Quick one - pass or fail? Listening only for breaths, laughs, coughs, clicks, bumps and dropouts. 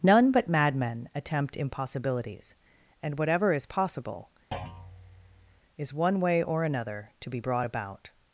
fail